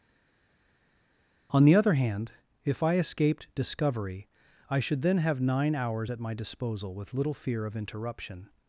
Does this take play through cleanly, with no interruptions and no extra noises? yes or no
yes